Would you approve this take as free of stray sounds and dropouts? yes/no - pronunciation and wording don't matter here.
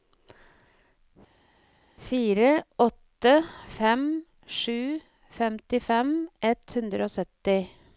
yes